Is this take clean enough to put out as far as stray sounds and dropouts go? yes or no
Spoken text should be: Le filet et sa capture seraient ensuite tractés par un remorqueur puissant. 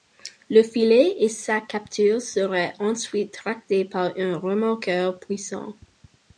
yes